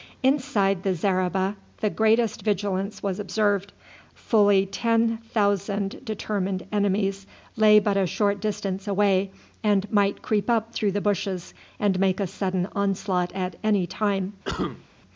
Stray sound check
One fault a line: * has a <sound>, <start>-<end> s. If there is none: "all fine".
* has a cough, 14.4-14.8 s